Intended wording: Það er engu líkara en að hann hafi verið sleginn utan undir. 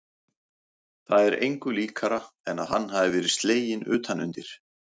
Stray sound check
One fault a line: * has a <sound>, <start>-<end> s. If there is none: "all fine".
all fine